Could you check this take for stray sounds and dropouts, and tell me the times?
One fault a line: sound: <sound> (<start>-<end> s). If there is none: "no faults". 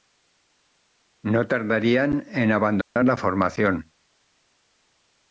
sound: dropout (2.8-3.0 s)